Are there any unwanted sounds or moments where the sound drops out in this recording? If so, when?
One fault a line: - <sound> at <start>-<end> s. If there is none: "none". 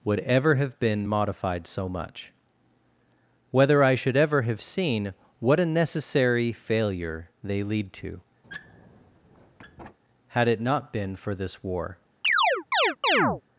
- squeak at 8.4-10.0 s
- chirp at 12.2-13.4 s